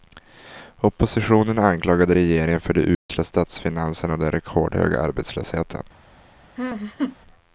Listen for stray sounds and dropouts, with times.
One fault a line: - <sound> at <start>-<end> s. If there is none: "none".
- dropout at 2.9-3.1 s
- laugh at 6.6-7.2 s